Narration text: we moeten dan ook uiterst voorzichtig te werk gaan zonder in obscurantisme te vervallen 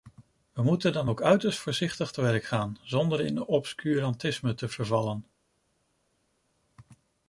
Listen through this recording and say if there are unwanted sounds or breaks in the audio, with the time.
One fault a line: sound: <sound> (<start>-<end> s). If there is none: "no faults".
no faults